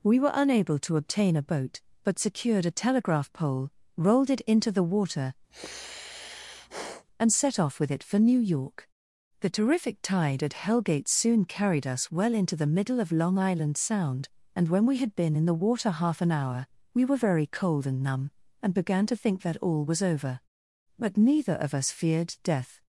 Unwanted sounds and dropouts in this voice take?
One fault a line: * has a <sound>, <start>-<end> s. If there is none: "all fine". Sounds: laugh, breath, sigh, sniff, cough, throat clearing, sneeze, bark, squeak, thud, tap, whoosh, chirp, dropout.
* has a sigh, 5.5-7.1 s